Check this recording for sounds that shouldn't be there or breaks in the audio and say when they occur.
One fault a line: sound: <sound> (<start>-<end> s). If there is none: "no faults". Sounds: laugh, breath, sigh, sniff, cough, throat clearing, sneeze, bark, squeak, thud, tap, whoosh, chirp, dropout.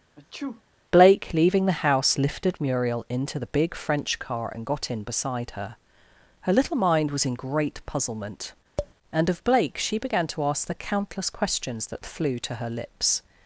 sound: sneeze (0.2-0.6 s)
sound: tap (8.8-8.9 s)